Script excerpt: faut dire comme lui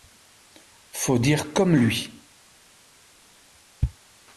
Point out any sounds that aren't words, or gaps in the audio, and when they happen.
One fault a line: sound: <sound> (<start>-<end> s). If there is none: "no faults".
no faults